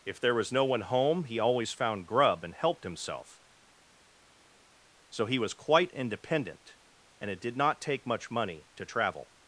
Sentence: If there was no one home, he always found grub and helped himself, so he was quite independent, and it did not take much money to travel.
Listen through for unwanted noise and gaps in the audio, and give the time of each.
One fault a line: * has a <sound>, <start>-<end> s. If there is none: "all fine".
all fine